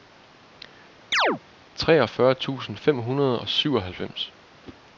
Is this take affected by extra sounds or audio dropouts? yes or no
yes